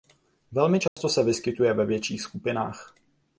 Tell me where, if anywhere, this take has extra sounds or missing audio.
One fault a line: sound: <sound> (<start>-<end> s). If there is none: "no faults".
sound: dropout (0.9-1.0 s)